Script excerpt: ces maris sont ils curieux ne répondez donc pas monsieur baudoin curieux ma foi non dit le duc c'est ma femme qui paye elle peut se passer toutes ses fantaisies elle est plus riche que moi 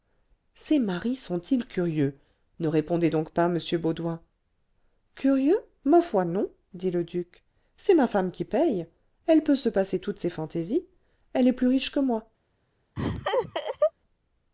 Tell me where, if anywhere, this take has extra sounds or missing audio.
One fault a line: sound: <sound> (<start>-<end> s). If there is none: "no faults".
sound: laugh (13.0-13.9 s)